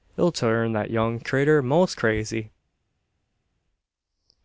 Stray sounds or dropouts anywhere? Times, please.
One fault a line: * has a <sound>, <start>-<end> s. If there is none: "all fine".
all fine